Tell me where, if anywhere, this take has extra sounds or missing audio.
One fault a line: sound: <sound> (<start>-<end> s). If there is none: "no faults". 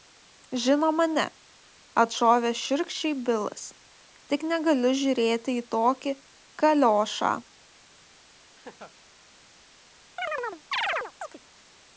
sound: laugh (8.5-9.0 s)
sound: chirp (10.2-11.4 s)